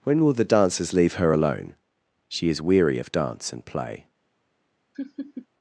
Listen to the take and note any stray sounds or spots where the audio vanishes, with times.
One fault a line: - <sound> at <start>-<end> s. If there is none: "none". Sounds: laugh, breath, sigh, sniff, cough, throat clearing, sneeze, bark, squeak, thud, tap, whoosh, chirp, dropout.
- laugh at 4.9-5.5 s